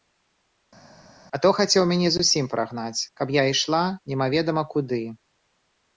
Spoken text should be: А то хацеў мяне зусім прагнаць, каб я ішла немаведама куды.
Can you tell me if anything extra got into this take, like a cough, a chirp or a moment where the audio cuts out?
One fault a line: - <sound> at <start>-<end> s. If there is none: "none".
none